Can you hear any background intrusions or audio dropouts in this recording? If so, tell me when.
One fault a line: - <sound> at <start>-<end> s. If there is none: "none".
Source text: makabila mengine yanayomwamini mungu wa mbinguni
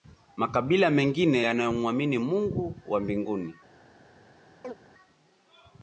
- chirp at 4.6-4.7 s